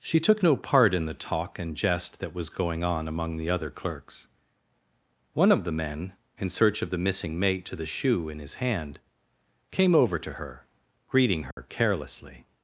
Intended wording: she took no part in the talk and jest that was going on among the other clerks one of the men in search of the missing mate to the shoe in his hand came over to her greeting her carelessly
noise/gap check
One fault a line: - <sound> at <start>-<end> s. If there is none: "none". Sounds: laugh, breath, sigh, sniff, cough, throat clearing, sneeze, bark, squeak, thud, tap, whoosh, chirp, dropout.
- dropout at 11.5-11.6 s